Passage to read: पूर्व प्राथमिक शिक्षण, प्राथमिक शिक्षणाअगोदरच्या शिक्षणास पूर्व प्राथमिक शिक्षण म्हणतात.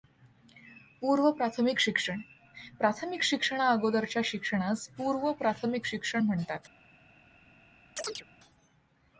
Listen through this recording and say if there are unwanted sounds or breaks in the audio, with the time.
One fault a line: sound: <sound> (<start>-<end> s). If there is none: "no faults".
sound: chirp (8.0-8.3 s)